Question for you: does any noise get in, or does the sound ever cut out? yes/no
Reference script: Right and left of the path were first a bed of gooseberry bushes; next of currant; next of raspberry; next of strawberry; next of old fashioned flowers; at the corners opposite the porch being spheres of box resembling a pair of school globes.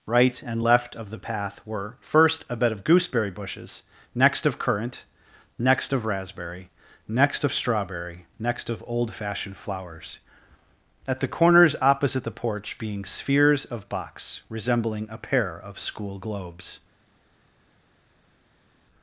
no